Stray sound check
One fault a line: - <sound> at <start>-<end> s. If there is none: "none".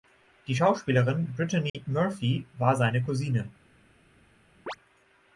- dropout at 1.7-1.7 s
- chirp at 4.7-4.8 s